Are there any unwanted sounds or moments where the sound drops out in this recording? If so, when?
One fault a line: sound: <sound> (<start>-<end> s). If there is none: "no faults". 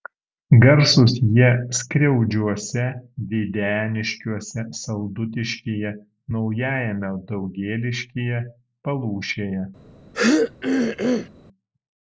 sound: throat clearing (10.1-11.3 s)